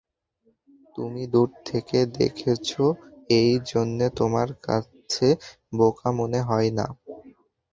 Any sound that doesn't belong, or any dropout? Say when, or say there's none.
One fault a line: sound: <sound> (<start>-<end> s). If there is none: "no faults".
no faults